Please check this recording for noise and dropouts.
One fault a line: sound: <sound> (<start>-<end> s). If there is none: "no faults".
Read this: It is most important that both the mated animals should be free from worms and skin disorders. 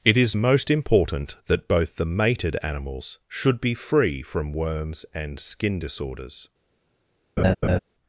sound: laugh (7.4-7.8 s)